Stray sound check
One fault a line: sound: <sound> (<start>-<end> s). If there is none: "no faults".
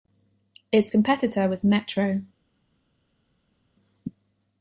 no faults